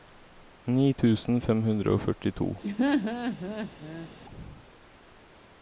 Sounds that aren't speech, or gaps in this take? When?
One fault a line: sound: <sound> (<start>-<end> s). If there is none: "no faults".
sound: laugh (2.6-4.1 s)